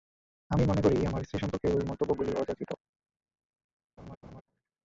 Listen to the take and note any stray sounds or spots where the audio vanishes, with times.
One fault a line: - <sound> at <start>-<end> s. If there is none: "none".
- laugh at 4.0-4.4 s